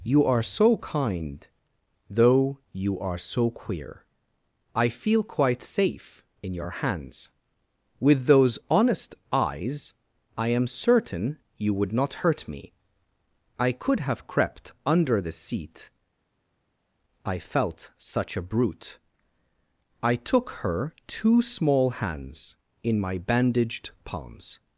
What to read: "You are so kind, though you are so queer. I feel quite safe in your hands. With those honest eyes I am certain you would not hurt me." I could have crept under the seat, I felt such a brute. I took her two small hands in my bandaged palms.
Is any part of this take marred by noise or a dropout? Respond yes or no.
no